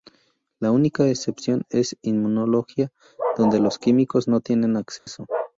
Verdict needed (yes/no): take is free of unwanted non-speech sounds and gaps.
no